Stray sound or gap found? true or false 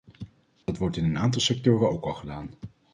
true